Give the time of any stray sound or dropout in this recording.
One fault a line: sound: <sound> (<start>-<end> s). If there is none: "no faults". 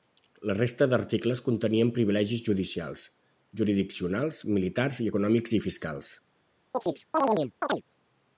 sound: chirp (6.7-7.8 s)